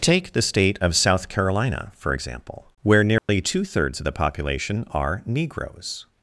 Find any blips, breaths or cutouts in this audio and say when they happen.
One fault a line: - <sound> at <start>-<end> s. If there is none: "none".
- dropout at 3.2-3.3 s